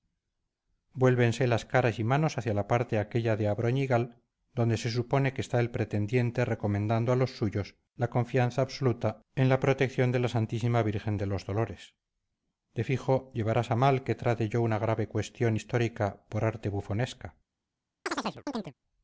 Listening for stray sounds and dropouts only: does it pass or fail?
fail